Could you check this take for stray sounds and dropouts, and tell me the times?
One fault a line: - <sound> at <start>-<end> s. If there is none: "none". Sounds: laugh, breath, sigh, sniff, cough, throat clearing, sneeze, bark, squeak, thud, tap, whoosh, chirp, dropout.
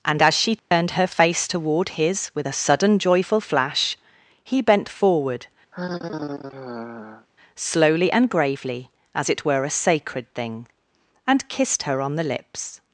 - dropout at 0.6-0.7 s
- sigh at 5.7-7.3 s